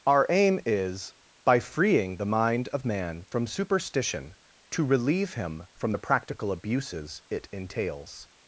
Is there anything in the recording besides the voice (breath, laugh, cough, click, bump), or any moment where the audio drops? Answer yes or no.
no